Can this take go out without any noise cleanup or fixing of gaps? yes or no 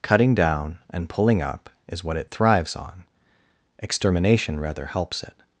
yes